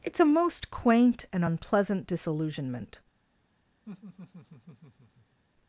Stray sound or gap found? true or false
true